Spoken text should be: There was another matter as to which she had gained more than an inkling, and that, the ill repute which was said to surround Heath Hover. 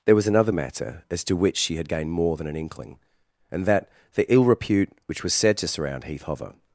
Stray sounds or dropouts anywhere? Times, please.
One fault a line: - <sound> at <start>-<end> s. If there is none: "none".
none